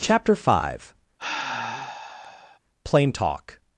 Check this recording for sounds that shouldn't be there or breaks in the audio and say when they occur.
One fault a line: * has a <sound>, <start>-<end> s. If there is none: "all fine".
* has a sigh, 1.2-2.6 s